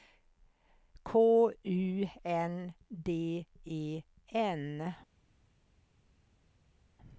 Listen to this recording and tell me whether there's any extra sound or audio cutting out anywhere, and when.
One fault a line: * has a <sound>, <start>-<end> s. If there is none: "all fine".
all fine